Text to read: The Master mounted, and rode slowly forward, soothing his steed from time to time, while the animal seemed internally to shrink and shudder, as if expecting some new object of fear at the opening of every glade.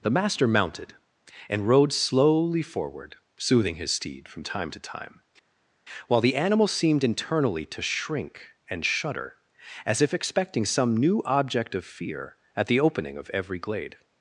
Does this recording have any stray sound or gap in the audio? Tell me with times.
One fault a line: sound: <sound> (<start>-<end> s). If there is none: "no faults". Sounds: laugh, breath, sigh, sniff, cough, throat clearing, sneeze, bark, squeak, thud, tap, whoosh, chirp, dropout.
no faults